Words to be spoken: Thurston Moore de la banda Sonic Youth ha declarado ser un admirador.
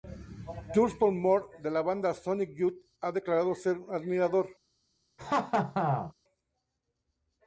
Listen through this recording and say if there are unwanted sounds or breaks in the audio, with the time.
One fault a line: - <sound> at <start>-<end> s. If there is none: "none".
- laugh at 5.2-6.1 s